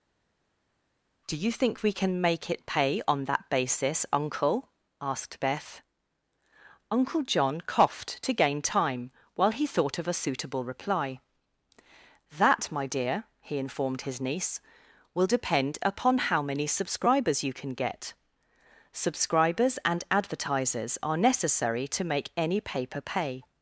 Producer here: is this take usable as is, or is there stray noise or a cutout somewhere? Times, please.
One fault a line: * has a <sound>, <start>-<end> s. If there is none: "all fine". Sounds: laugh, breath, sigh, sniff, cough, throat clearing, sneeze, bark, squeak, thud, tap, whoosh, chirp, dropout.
all fine